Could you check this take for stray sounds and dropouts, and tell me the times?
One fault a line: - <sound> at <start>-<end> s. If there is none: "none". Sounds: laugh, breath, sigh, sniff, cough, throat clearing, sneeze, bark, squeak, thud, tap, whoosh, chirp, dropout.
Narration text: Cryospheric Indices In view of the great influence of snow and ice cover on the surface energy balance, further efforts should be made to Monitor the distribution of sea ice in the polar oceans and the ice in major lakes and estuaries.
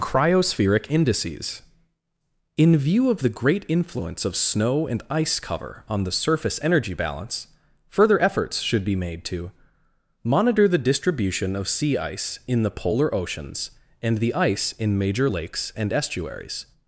none